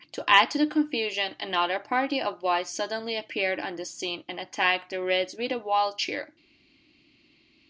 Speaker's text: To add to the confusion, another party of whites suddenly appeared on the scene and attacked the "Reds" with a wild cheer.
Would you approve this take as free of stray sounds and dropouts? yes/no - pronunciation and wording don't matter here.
yes